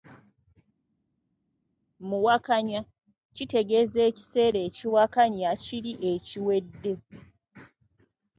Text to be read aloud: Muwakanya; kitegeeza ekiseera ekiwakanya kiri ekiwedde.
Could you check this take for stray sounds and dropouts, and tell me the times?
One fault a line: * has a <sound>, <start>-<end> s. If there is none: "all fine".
all fine